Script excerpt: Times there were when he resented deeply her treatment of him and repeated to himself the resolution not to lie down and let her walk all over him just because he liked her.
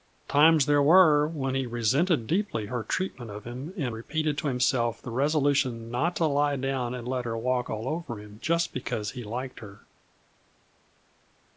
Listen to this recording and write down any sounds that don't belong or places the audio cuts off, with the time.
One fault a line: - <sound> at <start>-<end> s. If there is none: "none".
none